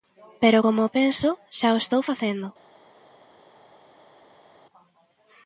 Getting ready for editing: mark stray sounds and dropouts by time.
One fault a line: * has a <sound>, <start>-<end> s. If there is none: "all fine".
all fine